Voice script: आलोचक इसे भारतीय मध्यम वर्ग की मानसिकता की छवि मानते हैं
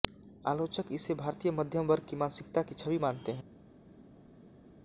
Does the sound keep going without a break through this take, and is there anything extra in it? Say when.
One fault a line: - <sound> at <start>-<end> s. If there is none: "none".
none